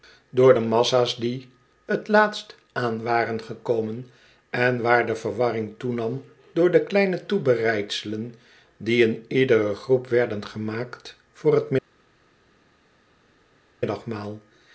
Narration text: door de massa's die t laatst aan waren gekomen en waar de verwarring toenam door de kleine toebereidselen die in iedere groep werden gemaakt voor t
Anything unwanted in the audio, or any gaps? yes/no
no